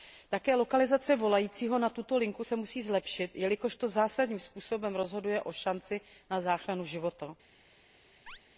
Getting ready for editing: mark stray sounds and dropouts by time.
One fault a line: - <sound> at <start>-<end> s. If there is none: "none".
- chirp at 8.3-8.4 s